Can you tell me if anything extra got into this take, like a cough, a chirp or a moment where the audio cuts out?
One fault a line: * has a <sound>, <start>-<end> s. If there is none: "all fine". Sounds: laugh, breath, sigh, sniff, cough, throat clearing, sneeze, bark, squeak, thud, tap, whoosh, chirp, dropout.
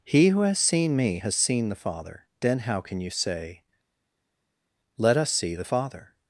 all fine